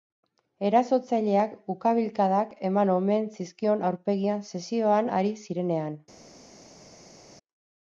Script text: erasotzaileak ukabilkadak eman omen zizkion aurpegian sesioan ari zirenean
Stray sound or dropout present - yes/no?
no